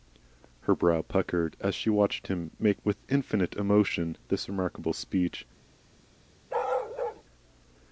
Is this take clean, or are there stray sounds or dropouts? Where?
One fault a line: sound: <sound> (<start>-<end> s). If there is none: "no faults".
sound: bark (6.5-7.2 s)